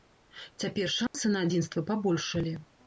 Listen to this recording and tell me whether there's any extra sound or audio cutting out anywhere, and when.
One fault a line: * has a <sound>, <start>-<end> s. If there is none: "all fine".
* has a dropout, 1.1-1.1 s